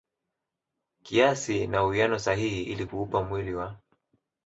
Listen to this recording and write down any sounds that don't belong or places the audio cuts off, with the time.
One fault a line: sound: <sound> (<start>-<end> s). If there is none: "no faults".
no faults